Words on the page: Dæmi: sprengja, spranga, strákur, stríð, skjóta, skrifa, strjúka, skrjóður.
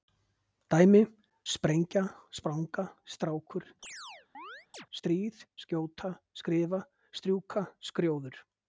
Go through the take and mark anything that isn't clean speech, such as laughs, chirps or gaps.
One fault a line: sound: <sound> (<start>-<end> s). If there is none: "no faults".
sound: chirp (3.8-4.9 s)